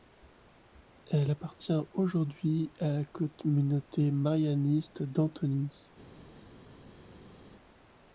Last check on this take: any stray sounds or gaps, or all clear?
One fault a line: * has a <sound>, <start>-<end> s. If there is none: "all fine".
all fine